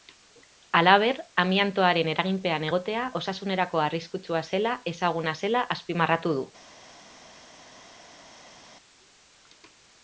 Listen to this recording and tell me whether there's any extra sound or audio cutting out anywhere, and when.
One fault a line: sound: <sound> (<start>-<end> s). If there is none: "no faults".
no faults